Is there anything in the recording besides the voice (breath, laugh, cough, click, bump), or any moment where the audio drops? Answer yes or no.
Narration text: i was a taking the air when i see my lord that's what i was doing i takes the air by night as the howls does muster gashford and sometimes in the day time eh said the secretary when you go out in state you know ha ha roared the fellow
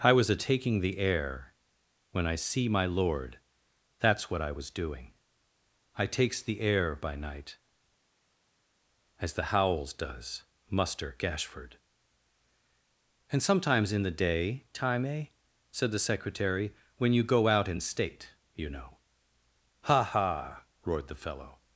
no